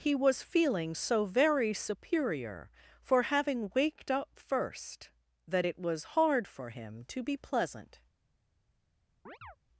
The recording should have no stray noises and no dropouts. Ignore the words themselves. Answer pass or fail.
fail